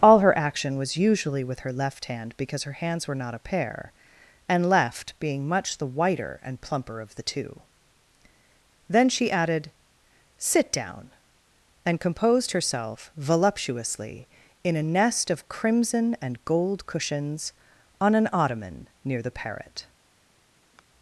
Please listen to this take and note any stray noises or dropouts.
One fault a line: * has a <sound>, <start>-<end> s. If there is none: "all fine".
* has a sigh, 20.7-20.8 s